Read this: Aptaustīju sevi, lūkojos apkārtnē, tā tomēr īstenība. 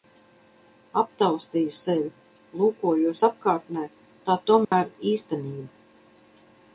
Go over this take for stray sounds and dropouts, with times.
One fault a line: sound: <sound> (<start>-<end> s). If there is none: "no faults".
sound: dropout (4.6-4.7 s)